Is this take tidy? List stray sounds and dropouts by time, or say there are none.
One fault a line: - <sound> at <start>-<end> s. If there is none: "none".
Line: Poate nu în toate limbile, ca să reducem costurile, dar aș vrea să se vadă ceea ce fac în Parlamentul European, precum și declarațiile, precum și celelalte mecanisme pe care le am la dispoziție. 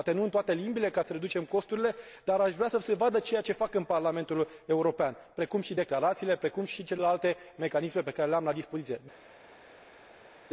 none